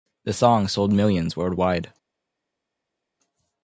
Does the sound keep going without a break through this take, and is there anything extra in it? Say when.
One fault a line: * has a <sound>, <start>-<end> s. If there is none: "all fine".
all fine